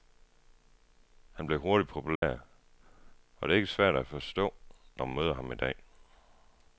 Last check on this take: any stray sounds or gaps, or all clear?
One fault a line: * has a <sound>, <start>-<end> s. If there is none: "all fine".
* has a dropout, 2.2-2.2 s